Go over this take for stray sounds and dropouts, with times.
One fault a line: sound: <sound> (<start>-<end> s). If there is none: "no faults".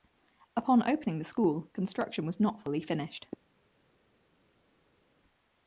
no faults